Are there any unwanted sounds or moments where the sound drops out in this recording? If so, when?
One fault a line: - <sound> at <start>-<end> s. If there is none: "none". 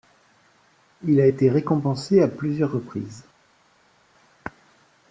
none